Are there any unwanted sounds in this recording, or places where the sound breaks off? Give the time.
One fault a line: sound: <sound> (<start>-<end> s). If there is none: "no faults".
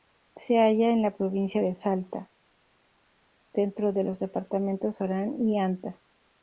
no faults